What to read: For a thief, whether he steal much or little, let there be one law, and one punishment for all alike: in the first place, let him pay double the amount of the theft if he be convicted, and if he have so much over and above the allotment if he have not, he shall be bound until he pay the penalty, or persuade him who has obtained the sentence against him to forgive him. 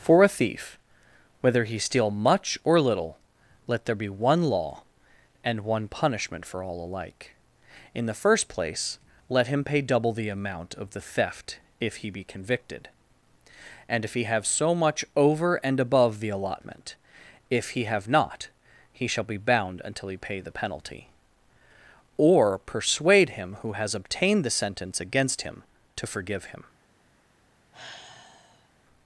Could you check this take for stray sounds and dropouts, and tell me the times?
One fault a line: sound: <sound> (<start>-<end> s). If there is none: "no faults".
sound: sigh (27.7-28.7 s)